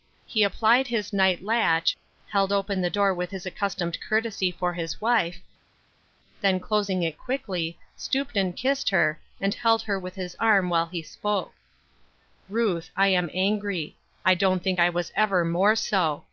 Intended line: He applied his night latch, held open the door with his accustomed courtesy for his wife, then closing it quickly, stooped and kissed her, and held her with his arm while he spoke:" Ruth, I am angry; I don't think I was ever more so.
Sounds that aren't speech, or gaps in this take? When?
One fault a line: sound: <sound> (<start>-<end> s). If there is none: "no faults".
no faults